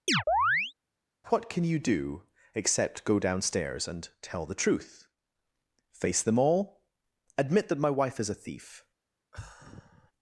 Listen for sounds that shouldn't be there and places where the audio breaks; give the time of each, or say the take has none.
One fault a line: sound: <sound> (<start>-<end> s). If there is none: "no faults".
sound: chirp (0.1-0.7 s)
sound: sigh (9.3-10.1 s)